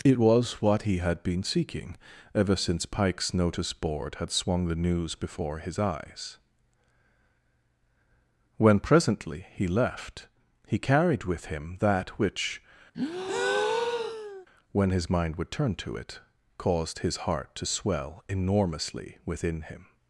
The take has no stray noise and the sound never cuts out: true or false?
false